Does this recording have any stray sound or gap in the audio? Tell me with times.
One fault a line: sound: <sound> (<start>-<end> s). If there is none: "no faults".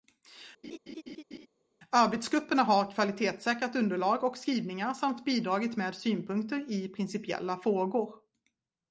sound: laugh (0.6-1.5 s)